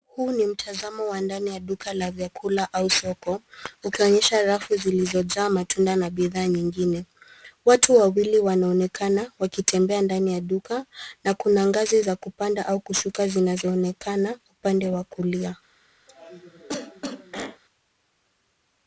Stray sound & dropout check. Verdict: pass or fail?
fail